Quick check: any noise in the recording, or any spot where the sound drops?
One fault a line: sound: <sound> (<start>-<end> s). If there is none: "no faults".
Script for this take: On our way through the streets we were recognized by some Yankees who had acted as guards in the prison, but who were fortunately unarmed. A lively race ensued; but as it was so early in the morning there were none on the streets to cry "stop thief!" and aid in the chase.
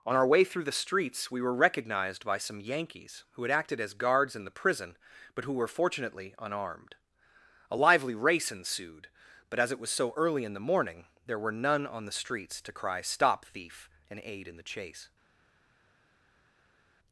no faults